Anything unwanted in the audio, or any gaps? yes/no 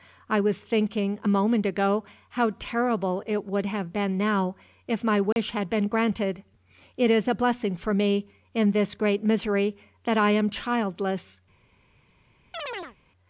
yes